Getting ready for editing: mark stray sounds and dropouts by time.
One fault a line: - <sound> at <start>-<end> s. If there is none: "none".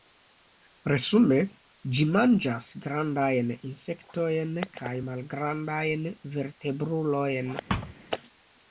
- thud at 7.7-7.9 s